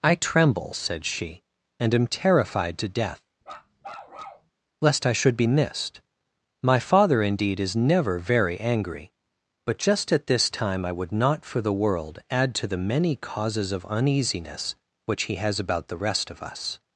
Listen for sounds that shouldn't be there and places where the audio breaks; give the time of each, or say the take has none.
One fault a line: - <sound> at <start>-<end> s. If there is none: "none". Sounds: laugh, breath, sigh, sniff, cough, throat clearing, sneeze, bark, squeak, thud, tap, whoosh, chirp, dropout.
- bark at 3.4-4.5 s